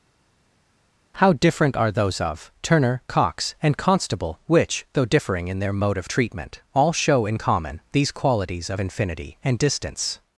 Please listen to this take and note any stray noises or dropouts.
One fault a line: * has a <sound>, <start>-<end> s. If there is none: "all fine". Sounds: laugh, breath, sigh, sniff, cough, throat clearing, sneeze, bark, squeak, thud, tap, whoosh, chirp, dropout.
all fine